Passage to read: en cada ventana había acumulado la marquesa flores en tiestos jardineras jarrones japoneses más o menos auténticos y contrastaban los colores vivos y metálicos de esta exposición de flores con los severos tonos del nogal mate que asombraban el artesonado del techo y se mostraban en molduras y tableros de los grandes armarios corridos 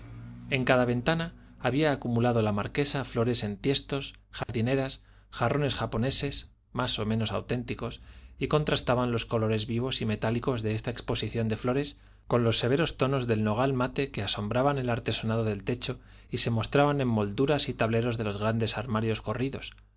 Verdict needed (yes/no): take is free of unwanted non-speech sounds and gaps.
no